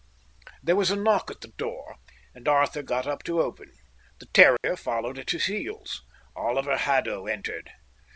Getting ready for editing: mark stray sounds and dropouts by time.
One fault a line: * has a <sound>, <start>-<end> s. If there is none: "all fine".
* has a dropout, 4.6-4.6 s